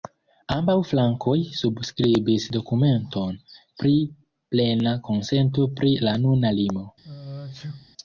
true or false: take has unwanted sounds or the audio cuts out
true